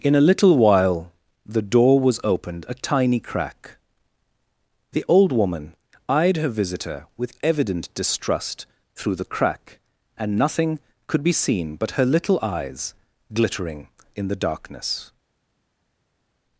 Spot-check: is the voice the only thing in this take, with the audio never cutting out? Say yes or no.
yes